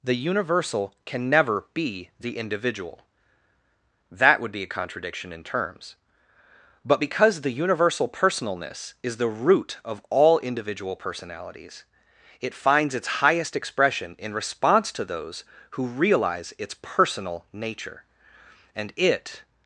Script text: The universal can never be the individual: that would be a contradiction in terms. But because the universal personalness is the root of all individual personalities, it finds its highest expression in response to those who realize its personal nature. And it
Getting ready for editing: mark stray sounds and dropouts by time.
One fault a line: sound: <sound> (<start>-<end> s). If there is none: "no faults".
no faults